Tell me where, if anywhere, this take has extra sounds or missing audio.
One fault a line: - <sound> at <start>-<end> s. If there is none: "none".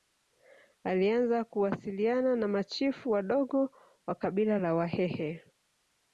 none